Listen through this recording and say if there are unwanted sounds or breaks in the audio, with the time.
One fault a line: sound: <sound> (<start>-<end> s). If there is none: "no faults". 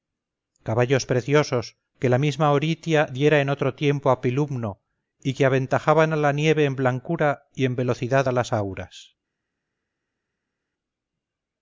no faults